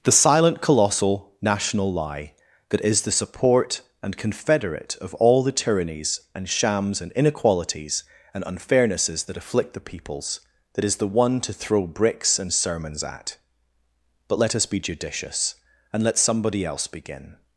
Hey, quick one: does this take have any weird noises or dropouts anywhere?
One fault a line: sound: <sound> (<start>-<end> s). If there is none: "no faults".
no faults